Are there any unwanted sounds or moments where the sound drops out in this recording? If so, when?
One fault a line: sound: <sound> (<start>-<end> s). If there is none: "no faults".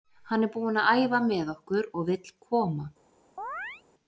sound: chirp (3.4-3.8 s)